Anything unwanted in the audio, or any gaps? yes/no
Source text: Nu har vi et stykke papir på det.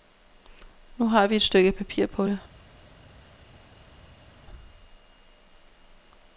no